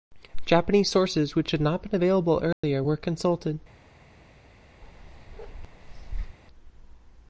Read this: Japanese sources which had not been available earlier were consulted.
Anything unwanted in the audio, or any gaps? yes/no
yes